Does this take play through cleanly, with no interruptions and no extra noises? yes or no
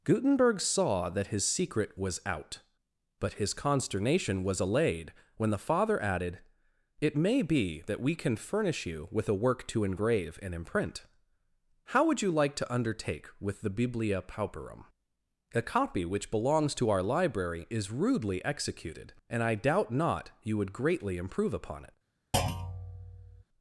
no